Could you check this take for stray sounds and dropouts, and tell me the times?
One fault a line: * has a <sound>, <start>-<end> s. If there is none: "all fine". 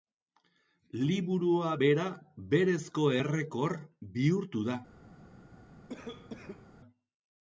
* has a cough, 5.9-6.7 s